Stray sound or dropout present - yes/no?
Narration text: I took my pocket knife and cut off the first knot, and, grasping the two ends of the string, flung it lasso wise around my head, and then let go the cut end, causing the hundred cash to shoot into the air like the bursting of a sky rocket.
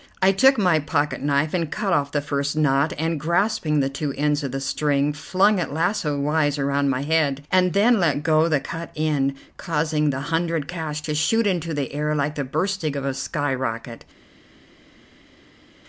no